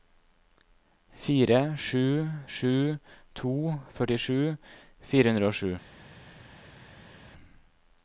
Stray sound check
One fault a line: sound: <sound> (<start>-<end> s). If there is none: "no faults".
no faults